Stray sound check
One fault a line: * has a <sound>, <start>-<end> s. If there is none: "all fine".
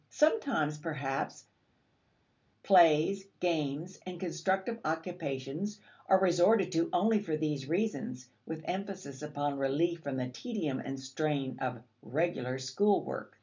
all fine